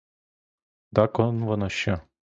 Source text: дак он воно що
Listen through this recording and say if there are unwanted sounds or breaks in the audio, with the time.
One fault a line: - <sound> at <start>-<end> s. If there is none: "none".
none